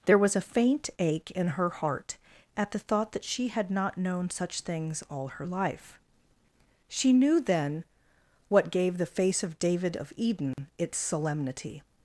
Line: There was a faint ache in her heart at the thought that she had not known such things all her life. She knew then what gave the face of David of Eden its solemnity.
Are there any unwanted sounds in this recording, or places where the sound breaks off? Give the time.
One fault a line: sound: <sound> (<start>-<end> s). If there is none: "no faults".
sound: dropout (10.5-10.6 s)